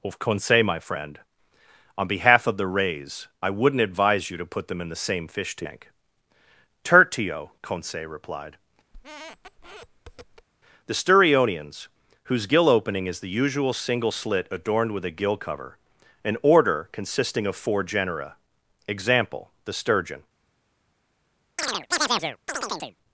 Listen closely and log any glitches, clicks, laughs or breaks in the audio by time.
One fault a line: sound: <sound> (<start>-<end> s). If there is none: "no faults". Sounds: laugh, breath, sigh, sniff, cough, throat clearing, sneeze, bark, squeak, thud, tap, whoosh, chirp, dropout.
sound: squeak (8.9-10.5 s)
sound: chirp (21.6-23.0 s)